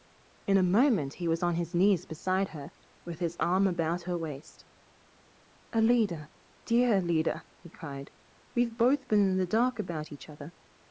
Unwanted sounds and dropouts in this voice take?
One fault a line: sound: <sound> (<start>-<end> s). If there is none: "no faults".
no faults